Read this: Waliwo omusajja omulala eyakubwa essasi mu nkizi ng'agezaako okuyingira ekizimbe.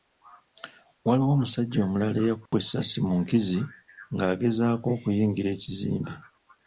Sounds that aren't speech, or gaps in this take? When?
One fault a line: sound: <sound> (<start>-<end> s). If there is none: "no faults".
sound: dropout (2.5-2.5 s)